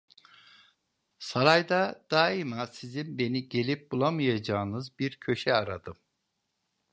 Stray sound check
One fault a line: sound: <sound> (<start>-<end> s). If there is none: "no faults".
no faults